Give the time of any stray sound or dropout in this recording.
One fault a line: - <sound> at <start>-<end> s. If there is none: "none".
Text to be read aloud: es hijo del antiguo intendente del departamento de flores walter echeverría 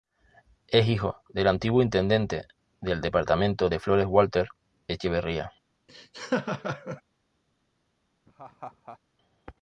- laugh at 5.9-7.0 s
- laugh at 8.2-9.0 s